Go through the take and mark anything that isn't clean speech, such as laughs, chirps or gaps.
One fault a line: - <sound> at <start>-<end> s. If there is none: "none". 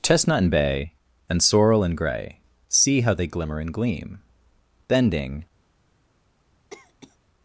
- cough at 6.7-7.2 s